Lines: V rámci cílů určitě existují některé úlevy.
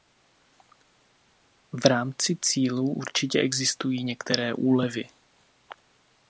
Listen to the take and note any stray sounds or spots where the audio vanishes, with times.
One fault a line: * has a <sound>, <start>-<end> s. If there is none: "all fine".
all fine